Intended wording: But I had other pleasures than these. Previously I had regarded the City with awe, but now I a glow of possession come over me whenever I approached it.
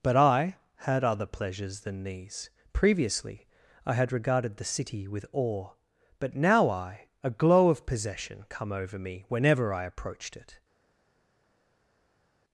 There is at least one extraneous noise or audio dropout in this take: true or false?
false